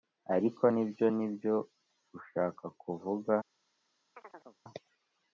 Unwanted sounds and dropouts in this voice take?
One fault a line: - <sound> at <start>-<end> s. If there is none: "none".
- chirp at 4.1-4.6 s